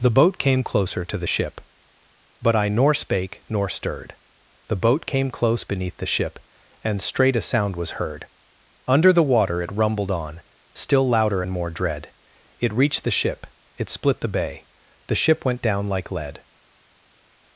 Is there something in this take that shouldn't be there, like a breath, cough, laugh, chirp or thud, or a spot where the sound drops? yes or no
no